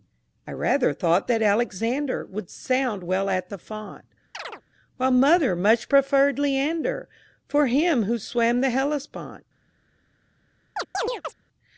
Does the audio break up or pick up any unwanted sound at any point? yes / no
yes